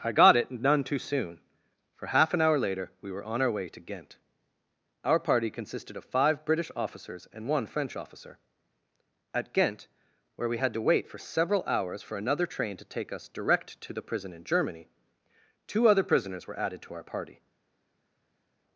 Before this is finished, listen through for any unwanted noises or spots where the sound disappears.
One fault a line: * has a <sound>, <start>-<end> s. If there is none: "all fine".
all fine